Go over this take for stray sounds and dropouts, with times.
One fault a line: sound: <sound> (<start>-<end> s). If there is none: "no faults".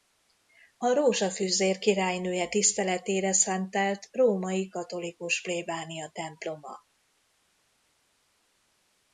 no faults